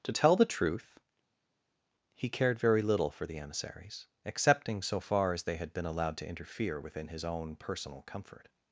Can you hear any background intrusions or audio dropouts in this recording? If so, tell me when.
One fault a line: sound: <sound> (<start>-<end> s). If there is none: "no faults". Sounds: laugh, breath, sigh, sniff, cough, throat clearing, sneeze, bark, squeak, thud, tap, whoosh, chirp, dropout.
no faults